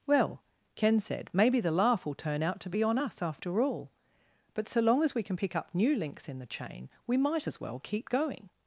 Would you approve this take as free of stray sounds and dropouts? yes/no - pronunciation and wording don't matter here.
yes